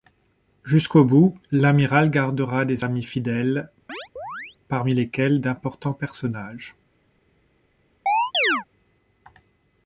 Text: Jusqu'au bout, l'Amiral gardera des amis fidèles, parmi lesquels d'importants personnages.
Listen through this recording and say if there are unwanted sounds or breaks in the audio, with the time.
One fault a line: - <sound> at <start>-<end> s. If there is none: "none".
- chirp at 3.9-4.6 s
- chirp at 8.1-8.6 s